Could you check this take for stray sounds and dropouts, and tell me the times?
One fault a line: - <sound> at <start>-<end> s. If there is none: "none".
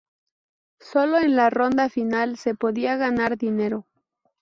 none